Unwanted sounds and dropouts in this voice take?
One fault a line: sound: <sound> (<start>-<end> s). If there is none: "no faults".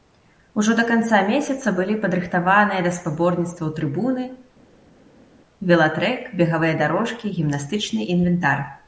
no faults